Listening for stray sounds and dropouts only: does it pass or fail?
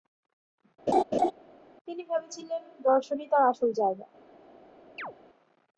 fail